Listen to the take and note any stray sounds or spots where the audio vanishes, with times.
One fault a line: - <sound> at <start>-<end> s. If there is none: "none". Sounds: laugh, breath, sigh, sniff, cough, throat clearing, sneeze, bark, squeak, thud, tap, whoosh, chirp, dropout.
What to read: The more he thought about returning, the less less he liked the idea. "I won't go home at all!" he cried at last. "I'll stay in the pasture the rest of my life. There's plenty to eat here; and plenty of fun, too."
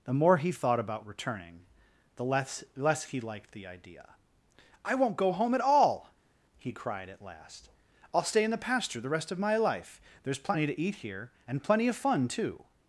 none